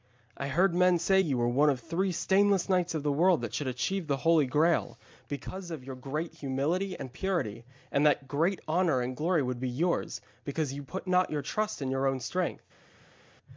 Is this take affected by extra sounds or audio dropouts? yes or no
no